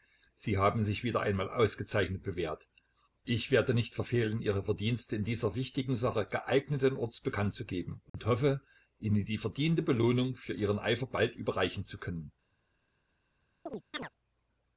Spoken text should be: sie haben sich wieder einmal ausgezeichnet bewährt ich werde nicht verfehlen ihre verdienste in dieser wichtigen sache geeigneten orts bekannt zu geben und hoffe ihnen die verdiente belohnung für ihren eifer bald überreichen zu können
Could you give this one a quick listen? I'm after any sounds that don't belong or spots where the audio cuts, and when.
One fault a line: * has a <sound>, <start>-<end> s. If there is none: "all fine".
* has a dropout, 8.1-8.1 s
* has a chirp, 13.7-14.1 s